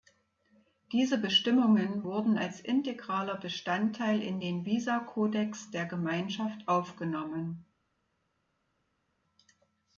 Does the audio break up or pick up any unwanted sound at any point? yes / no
no